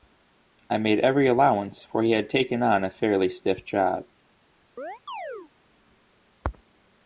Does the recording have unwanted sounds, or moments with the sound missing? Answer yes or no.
yes